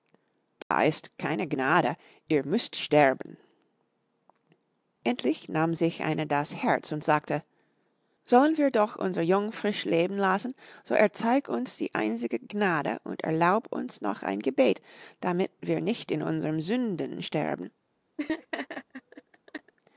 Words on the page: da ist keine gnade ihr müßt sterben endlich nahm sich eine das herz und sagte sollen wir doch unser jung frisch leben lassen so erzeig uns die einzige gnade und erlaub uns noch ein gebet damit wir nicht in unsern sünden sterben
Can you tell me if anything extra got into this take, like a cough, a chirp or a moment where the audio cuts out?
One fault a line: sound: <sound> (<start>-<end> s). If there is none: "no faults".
sound: dropout (0.6-0.7 s)
sound: laugh (18.2-19.7 s)